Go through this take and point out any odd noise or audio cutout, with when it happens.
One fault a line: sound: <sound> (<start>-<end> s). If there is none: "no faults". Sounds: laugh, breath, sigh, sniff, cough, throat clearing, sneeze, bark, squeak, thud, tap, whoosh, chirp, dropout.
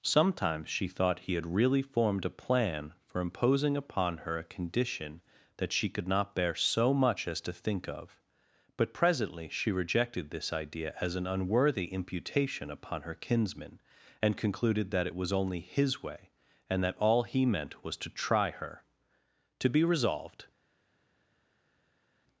no faults